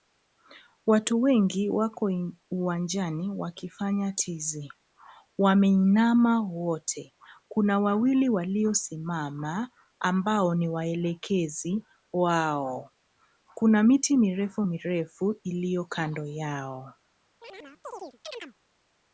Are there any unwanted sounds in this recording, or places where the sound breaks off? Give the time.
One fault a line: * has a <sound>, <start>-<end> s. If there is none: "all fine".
* has a chirp, 17.4-18.5 s